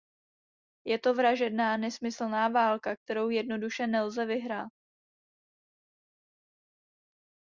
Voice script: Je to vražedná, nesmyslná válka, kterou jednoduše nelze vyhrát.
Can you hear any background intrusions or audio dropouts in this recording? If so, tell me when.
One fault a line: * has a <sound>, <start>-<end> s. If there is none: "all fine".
all fine